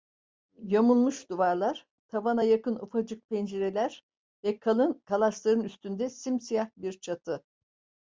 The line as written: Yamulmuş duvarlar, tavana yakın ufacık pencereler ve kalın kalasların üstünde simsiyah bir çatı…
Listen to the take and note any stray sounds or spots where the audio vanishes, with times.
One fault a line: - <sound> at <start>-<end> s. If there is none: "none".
none